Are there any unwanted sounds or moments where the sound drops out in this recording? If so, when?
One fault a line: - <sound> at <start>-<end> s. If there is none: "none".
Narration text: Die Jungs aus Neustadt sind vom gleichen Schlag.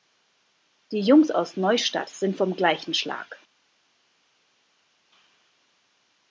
none